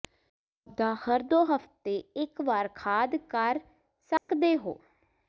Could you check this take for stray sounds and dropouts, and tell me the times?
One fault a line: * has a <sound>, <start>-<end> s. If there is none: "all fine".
* has a dropout, 4.2-4.3 s